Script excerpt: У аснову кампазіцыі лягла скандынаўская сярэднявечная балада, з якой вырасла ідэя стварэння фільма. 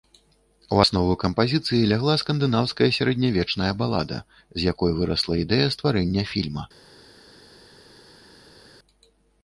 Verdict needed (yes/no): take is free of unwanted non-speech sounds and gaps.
yes